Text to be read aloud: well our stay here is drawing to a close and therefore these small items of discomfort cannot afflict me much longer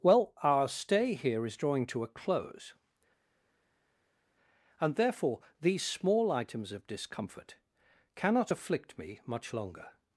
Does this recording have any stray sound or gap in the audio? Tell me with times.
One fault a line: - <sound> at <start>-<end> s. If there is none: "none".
none